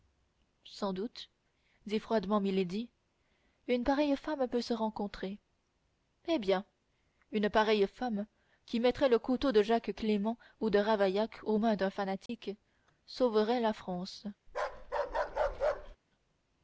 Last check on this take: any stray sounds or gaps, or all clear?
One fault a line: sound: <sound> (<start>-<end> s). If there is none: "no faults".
sound: dropout (12.3-12.3 s)
sound: bark (14.5-16.0 s)